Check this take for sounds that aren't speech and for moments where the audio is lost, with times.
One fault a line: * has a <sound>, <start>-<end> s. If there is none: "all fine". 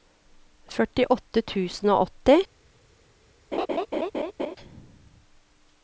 * has a laugh, 3.5-4.6 s